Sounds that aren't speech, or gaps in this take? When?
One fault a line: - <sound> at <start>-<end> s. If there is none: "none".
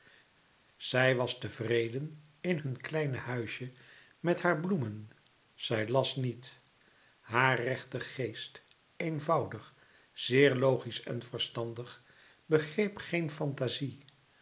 none